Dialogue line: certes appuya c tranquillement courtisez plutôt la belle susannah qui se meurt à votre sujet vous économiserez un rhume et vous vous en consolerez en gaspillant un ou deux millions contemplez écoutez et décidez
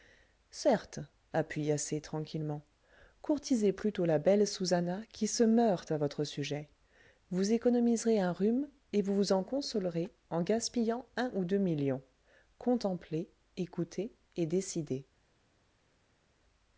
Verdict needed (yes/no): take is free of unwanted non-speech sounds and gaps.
yes